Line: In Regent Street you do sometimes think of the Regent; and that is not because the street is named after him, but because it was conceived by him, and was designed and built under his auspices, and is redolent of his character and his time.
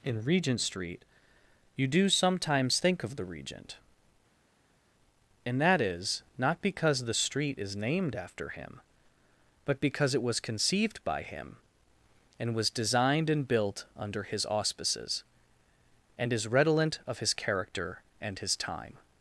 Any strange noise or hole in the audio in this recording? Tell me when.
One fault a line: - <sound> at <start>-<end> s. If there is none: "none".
none